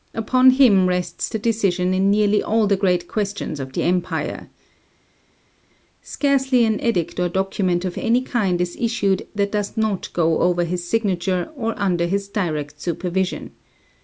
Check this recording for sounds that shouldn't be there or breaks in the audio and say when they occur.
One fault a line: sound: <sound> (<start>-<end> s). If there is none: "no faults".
no faults